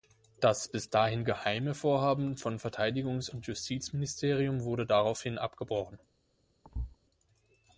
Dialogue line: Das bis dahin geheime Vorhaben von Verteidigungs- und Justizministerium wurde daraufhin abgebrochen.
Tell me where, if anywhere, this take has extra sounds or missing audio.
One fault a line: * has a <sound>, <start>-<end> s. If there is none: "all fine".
* has a thud, 6.6-7.0 s